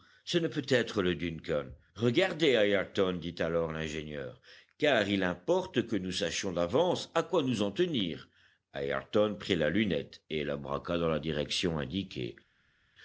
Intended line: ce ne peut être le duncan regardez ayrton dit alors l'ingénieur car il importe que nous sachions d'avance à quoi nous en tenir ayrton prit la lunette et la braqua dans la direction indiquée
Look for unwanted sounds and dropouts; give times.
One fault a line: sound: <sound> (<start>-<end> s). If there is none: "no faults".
no faults